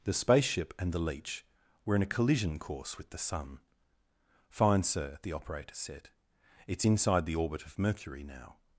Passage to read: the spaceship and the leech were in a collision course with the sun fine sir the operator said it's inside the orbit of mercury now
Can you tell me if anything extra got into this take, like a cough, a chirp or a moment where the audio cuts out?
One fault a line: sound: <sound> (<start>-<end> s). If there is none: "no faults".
no faults